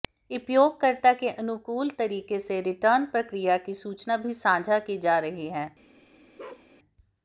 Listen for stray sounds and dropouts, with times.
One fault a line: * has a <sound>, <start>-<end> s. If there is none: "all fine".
* has a bark, 6.4-6.7 s